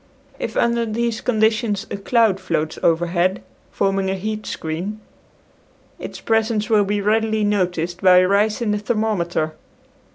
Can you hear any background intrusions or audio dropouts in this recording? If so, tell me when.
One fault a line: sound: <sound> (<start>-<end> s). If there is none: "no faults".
no faults